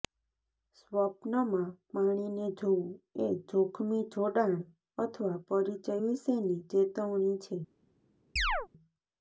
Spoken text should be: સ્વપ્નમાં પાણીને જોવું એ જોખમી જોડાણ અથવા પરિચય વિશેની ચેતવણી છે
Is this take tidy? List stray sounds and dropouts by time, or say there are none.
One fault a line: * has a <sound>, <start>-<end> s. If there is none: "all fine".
* has a chirp, 8.4-8.7 s